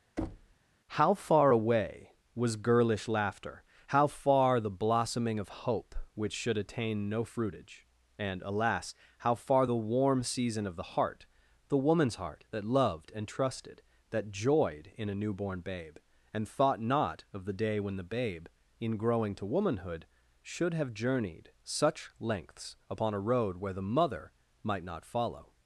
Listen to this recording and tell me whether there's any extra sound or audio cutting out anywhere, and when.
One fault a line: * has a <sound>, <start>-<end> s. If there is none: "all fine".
* has a thud, 0.2-0.5 s